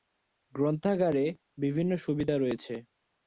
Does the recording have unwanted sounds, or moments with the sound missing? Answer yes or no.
no